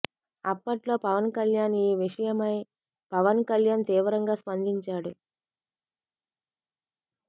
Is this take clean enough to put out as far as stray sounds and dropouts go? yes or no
yes